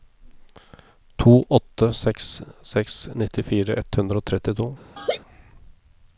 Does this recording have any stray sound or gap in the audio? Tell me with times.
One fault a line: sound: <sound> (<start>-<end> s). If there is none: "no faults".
sound: laugh (5.0-5.2 s)